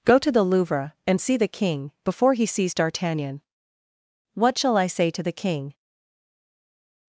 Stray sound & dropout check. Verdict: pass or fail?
pass